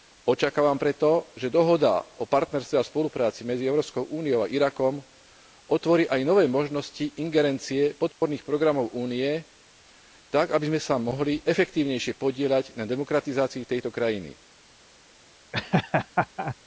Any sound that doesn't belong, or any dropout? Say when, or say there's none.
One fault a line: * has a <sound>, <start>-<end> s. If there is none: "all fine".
* has a dropout, 8.1-8.2 s
* has a laugh, 15.5-16.6 s